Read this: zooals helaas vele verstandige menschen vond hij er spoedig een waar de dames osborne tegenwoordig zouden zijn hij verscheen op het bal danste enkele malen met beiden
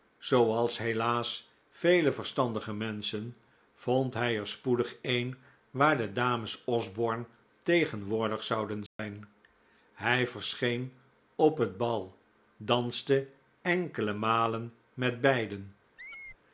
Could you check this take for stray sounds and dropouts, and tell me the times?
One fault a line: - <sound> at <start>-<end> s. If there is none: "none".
- dropout at 8.9-9.0 s
- squeak at 16.0-16.4 s